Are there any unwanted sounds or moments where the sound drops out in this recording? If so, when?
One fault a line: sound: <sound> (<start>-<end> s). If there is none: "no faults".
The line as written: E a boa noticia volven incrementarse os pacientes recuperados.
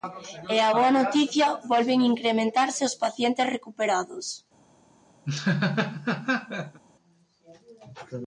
sound: laugh (5.2-6.8 s)